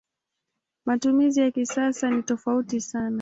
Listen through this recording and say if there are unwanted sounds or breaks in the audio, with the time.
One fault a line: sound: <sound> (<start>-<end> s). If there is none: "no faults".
no faults